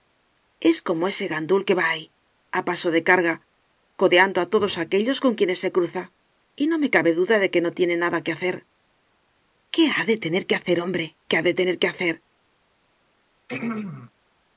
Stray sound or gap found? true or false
true